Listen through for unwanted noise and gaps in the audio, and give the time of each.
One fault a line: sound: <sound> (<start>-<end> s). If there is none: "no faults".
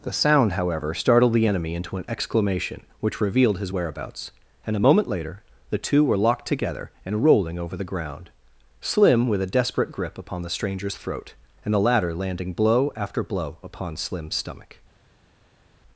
no faults